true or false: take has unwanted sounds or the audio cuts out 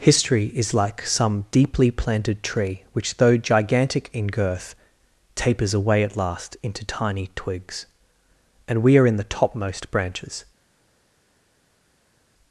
false